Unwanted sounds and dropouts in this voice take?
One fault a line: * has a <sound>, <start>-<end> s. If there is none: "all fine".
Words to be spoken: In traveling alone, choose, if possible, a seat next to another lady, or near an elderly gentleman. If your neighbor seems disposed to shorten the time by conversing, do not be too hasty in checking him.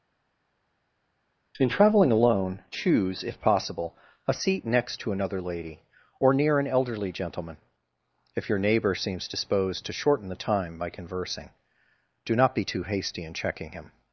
all fine